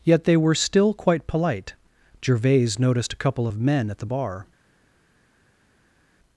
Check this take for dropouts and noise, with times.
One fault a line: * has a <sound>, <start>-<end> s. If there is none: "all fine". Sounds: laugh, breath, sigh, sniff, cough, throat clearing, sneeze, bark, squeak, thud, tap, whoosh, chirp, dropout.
all fine